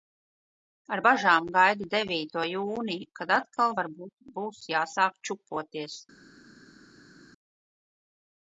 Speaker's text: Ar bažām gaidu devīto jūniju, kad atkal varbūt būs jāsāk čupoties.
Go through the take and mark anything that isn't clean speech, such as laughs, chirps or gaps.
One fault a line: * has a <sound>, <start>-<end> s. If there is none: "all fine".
all fine